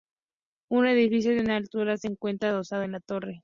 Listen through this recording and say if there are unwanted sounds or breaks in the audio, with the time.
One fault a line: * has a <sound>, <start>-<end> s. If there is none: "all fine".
all fine